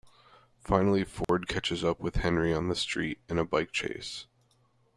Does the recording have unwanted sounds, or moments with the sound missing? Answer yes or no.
yes